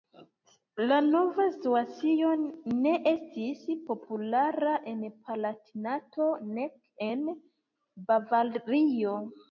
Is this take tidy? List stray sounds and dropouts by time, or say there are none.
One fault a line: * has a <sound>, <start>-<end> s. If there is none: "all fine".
all fine